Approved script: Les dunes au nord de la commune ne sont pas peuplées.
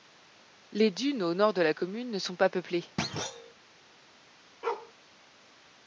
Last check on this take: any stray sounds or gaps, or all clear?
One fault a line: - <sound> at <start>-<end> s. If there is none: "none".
- thud at 3.0-3.5 s
- bark at 4.6-4.9 s